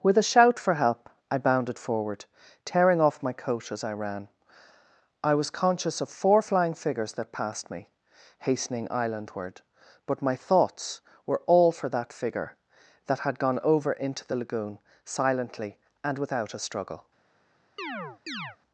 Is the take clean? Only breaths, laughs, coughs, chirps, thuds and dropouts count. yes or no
no